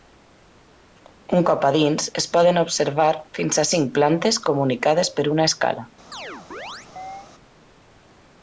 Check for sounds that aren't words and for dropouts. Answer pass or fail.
fail